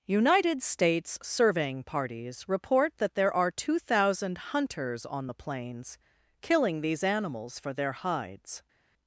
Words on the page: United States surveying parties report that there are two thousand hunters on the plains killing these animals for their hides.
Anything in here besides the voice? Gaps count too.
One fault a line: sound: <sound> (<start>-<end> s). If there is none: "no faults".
no faults